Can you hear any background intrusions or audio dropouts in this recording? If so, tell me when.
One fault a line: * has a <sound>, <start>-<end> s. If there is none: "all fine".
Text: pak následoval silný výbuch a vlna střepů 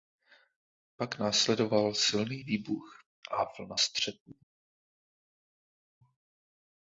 all fine